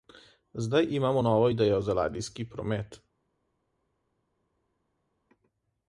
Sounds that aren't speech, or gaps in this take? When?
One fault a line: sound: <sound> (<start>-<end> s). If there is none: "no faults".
no faults